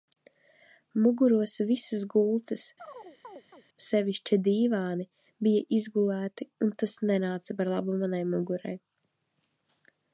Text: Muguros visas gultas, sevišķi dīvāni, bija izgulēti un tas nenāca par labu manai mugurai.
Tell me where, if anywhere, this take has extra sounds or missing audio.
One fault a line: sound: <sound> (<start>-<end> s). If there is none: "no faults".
sound: chirp (2.8-3.6 s)